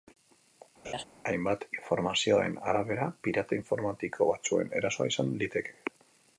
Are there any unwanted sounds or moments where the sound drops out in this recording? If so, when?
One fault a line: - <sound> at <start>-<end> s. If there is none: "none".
- laugh at 0.8-1.0 s